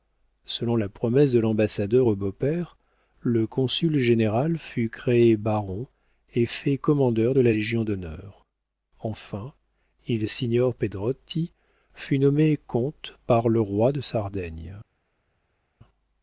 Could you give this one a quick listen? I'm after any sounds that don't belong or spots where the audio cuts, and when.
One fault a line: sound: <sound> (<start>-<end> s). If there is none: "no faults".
no faults